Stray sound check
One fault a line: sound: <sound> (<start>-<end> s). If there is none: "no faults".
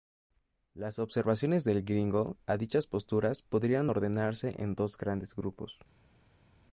no faults